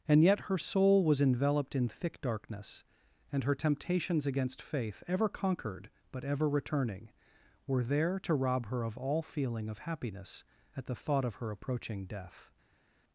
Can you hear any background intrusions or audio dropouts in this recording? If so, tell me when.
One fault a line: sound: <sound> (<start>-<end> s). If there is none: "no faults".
no faults